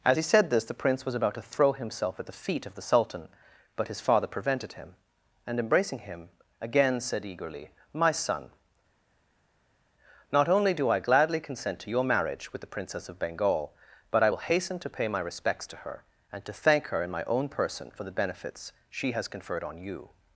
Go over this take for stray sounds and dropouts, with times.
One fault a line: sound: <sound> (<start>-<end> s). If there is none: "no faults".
no faults